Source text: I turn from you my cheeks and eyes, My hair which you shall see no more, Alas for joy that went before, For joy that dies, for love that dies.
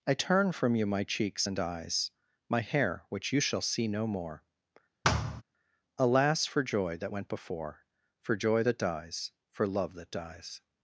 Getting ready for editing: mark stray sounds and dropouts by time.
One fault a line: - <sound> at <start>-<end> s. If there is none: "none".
- thud at 5.0-5.4 s